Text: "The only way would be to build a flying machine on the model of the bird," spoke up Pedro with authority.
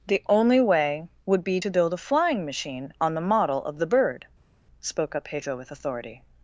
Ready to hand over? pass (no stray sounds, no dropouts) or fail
pass